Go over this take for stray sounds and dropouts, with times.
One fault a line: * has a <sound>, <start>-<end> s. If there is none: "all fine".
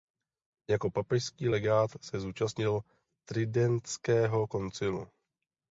all fine